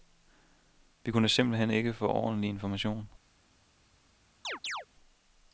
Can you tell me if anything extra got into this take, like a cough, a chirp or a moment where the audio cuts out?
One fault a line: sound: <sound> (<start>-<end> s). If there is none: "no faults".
sound: chirp (4.4-4.9 s)